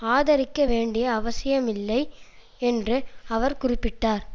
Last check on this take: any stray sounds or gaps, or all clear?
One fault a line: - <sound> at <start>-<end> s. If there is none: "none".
none